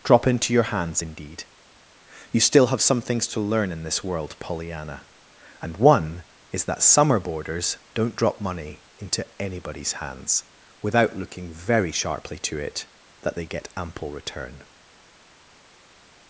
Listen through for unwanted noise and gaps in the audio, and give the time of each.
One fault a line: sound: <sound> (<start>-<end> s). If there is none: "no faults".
no faults